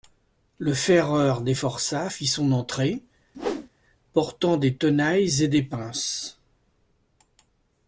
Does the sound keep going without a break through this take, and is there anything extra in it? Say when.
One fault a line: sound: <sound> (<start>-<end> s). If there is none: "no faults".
sound: whoosh (3.3-3.7 s)